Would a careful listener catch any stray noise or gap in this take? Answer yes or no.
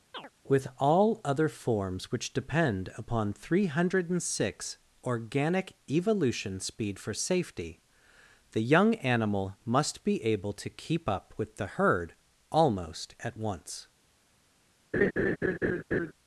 yes